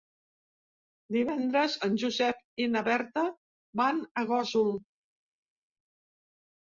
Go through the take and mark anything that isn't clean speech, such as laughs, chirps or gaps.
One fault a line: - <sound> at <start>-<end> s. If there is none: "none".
none